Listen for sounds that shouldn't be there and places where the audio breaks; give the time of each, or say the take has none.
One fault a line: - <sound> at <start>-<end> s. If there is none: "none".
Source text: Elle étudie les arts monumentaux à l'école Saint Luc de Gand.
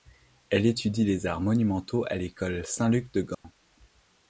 - dropout at 3.3-3.4 s